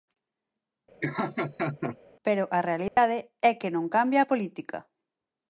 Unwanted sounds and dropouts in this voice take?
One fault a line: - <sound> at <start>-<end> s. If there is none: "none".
- laugh at 1.0-2.0 s
- dropout at 2.9-3.0 s